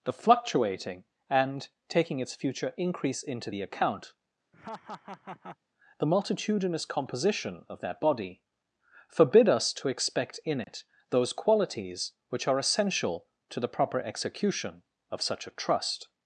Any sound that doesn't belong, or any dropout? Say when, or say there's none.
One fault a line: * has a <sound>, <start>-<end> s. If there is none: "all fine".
* has a laugh, 4.5-5.6 s
* has a dropout, 10.6-10.7 s